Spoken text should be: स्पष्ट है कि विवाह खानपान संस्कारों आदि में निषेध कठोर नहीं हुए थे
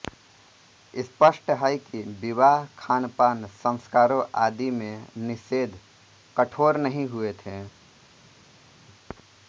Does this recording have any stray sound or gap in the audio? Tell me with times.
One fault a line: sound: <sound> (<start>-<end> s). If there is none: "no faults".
no faults